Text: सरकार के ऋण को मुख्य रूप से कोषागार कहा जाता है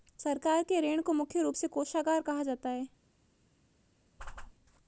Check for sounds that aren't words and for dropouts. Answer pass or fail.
fail